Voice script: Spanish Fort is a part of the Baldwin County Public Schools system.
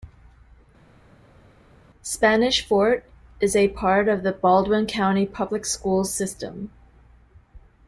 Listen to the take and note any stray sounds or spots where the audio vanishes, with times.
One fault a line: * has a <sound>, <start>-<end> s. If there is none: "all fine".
all fine